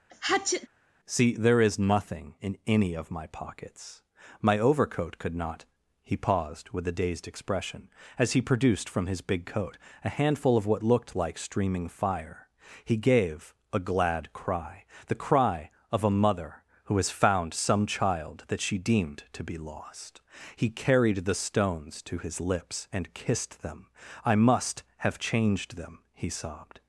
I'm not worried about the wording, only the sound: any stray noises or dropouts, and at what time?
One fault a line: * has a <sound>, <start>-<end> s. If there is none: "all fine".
* has a sneeze, 0.1-0.7 s